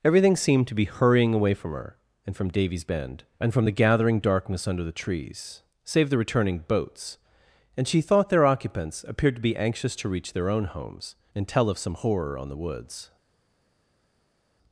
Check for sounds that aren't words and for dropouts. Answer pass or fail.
pass